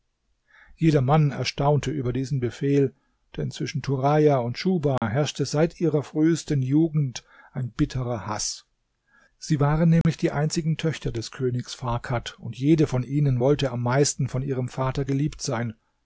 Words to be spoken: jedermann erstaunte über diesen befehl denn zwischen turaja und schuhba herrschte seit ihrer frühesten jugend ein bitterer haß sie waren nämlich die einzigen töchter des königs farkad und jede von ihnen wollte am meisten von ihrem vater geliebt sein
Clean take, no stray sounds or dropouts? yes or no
no